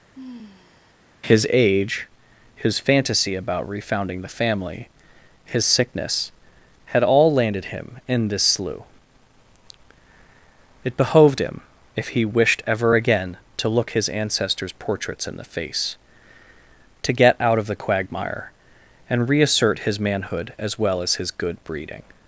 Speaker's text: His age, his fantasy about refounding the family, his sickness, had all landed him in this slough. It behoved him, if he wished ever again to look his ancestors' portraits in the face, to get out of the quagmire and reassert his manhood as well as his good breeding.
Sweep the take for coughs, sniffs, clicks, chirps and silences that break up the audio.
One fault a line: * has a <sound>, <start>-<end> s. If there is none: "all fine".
* has a sigh, 0.1-0.9 s